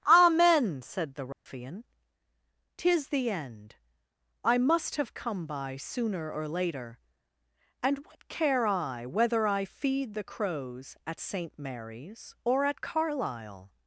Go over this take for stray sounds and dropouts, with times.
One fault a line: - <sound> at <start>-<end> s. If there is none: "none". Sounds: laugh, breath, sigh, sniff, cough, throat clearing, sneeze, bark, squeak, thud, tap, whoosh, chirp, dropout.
- dropout at 1.3-1.5 s